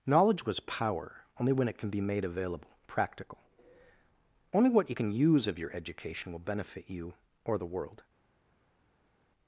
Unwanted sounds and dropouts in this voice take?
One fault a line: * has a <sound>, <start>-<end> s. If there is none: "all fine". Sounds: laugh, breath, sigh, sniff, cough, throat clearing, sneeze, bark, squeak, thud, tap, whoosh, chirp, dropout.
all fine